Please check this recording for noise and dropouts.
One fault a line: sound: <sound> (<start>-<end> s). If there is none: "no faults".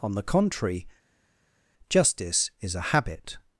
no faults